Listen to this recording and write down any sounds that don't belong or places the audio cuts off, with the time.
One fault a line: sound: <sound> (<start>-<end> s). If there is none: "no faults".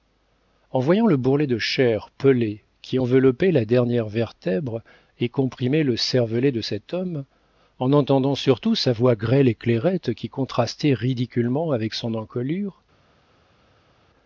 no faults